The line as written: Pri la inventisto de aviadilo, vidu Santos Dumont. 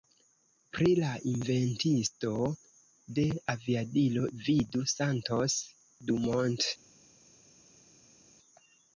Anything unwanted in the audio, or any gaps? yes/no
no